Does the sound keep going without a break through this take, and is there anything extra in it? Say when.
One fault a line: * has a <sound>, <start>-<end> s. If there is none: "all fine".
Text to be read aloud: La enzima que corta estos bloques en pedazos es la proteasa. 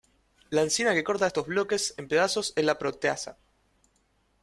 all fine